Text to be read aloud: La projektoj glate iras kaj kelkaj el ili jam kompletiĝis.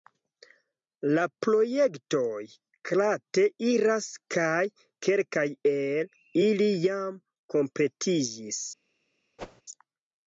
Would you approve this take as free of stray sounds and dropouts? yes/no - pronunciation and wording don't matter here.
no